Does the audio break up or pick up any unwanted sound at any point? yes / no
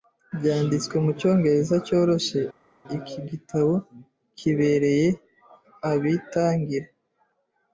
no